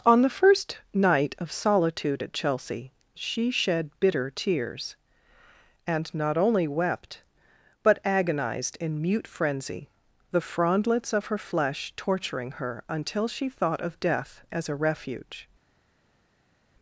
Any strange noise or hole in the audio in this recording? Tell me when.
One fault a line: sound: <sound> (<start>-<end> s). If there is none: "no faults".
no faults